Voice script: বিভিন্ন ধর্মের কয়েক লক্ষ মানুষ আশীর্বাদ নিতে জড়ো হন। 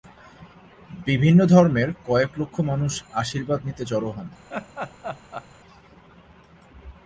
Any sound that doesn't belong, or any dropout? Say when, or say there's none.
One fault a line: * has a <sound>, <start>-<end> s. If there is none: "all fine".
* has a laugh, 4.5-5.5 s